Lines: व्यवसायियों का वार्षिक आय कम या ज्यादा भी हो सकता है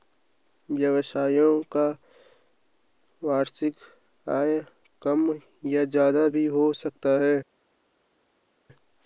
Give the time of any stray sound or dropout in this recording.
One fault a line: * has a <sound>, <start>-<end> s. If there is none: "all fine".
all fine